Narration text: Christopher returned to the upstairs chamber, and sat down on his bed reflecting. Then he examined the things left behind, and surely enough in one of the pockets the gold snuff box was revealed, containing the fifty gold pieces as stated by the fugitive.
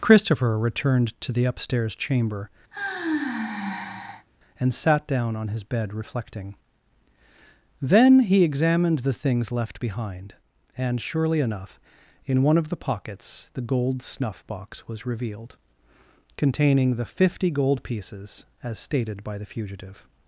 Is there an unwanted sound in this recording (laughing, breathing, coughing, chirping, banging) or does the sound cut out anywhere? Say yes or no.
yes